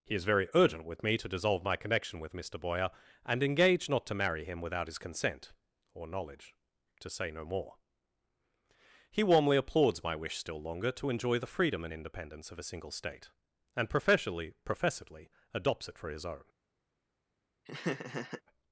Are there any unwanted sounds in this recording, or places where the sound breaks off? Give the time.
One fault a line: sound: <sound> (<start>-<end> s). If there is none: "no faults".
sound: laugh (17.7-18.4 s)